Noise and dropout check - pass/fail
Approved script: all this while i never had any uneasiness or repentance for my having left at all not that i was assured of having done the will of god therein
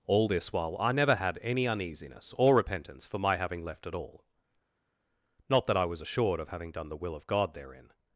pass